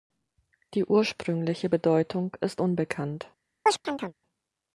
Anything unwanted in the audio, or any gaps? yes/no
yes